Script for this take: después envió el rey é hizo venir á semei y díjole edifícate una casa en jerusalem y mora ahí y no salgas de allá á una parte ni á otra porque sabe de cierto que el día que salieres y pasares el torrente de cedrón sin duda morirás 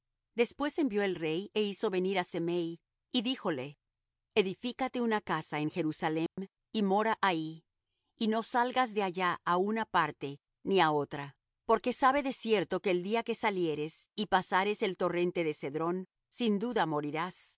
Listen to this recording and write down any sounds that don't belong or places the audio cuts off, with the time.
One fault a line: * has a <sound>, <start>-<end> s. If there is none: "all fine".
* has a dropout, 6.3-6.4 s